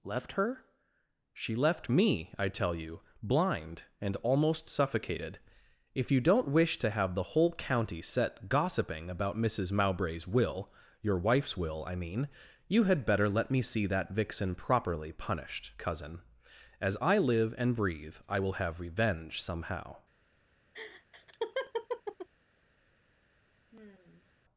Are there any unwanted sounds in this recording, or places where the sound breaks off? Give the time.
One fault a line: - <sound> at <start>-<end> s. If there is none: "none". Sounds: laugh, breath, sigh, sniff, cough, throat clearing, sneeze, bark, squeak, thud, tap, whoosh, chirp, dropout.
- laugh at 20.7-22.3 s
- sigh at 23.7-24.3 s